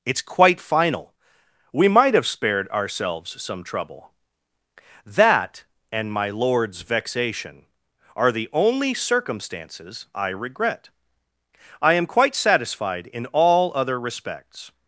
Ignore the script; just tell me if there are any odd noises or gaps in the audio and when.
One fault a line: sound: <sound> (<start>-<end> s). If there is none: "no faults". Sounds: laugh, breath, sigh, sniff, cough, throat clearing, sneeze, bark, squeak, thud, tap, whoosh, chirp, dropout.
no faults